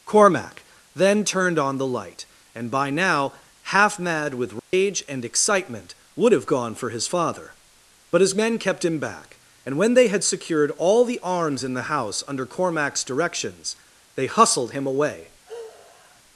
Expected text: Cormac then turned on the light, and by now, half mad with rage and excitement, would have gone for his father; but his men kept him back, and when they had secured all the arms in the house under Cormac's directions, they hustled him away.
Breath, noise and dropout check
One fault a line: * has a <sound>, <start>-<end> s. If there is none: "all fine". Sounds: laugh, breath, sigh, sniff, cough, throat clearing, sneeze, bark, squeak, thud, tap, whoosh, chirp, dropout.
* has a dropout, 4.6-4.7 s
* has a sigh, 15.5-16.2 s